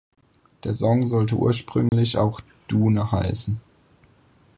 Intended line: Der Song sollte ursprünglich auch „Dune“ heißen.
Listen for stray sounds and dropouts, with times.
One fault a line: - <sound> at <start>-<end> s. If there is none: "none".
- dropout at 1.9-1.9 s